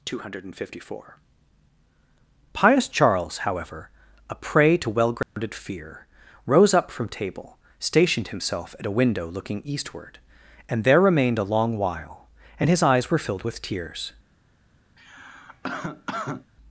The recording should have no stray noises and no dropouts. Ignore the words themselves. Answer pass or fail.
fail